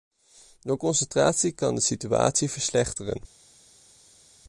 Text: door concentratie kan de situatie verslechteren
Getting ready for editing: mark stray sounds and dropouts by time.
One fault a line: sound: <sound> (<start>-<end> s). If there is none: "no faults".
no faults